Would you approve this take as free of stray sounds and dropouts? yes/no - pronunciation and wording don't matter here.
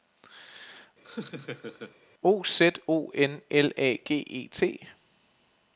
no